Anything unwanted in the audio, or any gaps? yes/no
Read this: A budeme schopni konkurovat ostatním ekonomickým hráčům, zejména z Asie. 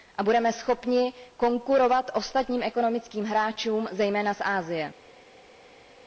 no